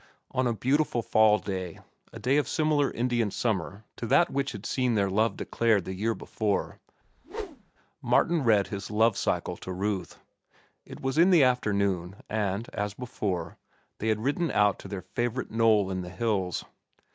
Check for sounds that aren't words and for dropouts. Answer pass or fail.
fail